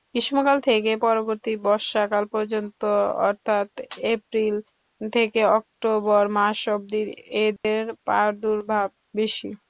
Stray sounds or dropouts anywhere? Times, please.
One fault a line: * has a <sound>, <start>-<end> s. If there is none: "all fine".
* has a dropout, 7.6-7.6 s